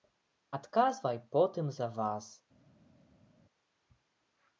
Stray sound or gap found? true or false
false